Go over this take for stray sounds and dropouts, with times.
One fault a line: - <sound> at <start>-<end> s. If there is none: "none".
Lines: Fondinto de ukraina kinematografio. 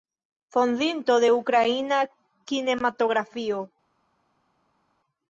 none